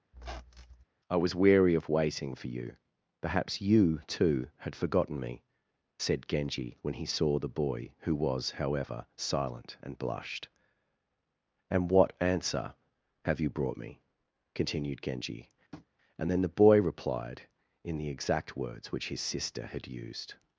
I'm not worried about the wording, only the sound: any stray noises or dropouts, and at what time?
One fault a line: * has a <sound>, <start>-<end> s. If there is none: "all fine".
* has a squeak, 0.1-0.8 s
* has a tap, 15.7-15.9 s